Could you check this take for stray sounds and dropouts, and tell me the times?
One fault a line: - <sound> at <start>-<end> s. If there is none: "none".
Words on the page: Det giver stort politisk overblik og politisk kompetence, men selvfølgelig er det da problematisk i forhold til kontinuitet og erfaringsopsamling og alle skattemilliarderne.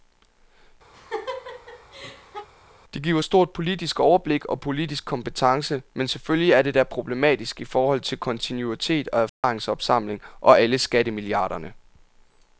- laugh at 0.9-2.5 s
- dropout at 9.3-9.4 s